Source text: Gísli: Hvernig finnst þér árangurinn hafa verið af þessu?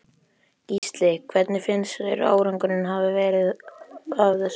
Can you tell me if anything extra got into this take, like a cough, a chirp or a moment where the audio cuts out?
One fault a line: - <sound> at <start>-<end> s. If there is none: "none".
- dropout at 0.8-0.8 s